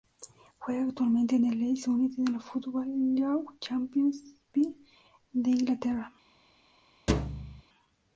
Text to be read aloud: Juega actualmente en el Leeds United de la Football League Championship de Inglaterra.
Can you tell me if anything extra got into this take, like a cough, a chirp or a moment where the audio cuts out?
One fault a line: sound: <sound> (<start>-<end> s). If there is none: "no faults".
sound: thud (7.1-7.6 s)